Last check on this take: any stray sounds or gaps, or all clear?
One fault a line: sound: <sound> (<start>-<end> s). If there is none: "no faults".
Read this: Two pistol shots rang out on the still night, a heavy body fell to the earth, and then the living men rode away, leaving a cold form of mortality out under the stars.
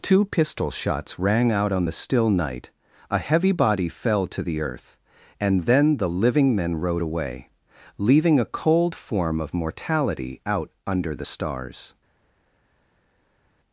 no faults